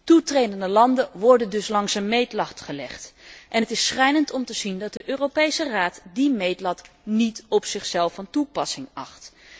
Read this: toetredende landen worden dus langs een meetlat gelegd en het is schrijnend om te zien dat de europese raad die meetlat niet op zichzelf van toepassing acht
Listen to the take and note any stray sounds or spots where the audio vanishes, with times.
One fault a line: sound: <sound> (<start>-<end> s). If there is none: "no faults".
sound: dropout (5.0-5.0 s)